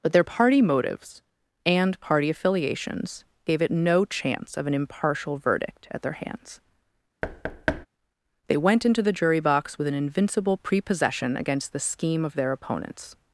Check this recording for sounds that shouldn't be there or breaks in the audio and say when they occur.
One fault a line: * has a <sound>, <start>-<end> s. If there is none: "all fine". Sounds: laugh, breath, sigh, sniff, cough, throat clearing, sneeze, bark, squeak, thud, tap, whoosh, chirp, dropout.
* has a thud, 7.2-7.9 s